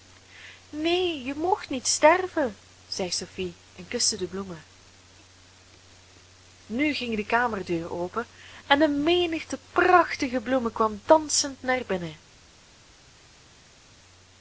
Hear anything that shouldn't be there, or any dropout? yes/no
no